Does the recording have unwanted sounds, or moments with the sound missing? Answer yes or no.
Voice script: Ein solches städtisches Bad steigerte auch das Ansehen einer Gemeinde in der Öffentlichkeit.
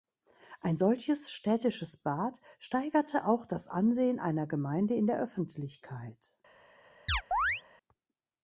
yes